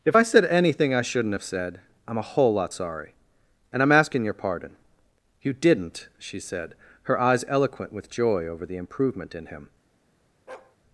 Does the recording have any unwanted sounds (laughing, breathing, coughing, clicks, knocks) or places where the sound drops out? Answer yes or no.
yes